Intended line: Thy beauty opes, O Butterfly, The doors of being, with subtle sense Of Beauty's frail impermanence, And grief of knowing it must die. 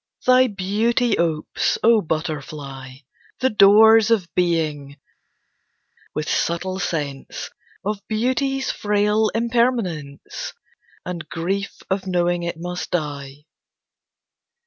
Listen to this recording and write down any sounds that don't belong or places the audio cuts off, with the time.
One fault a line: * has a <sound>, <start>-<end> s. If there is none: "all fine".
all fine